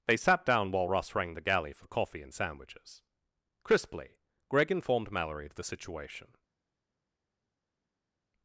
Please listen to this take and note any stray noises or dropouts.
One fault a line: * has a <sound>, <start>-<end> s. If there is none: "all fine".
all fine